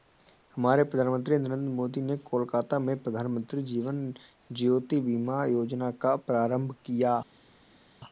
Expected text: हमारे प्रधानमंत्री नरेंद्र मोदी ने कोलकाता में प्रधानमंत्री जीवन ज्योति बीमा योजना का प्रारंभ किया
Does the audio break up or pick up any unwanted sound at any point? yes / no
no